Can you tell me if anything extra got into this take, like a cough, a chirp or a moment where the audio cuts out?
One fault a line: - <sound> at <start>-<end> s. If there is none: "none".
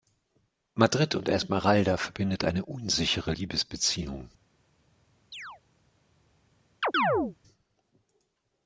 - chirp at 5.3-5.6 s
- chirp at 6.8-7.4 s